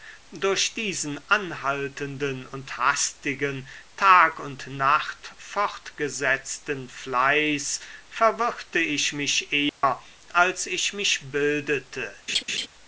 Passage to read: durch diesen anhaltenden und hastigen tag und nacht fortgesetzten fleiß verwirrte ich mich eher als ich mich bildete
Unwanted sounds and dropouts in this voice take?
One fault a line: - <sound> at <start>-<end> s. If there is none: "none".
- dropout at 9.7-9.8 s
- laugh at 12.3-12.7 s